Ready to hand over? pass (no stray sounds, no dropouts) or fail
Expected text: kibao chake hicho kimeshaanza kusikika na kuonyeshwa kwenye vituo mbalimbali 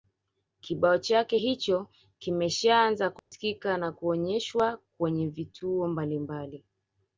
fail